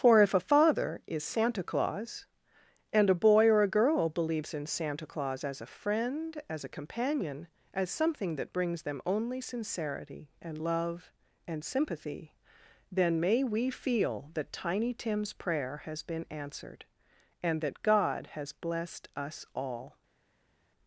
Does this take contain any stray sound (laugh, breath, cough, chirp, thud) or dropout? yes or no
no